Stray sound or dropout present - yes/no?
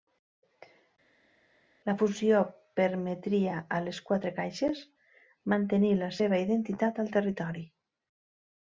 no